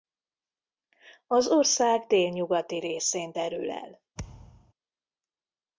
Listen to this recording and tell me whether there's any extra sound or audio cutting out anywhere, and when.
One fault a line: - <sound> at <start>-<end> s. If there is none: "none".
- thud at 4.2-4.7 s